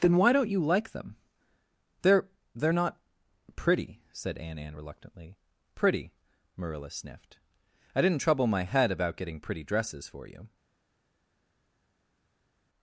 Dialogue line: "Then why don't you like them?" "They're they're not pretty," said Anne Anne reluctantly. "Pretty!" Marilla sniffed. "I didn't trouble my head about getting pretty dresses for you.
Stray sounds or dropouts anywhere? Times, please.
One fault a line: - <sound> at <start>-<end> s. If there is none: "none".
none